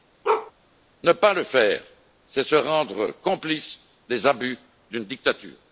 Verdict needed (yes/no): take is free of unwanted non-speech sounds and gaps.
no